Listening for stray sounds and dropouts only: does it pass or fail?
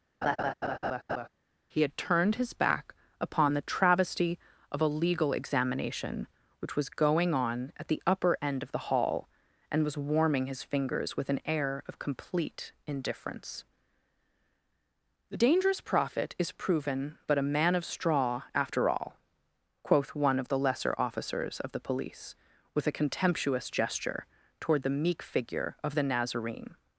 fail